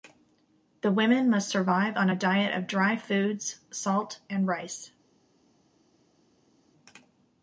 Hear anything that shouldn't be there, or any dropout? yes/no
no